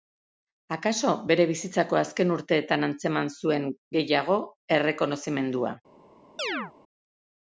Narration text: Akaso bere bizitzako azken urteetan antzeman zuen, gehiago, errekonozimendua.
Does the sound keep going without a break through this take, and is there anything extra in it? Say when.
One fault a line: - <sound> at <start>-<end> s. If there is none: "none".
- chirp at 6.4-6.7 s